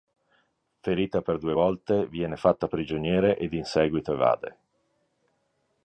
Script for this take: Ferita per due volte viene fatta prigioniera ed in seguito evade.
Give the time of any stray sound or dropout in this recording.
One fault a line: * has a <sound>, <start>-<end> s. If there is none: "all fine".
all fine